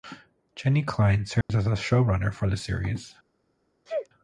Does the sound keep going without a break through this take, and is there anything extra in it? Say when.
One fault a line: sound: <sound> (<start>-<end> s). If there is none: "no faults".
sound: dropout (1.4-1.5 s)
sound: sneeze (3.9-4.1 s)